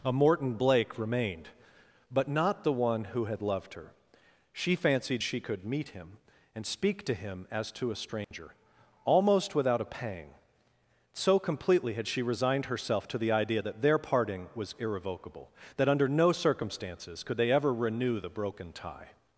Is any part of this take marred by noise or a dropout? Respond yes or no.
yes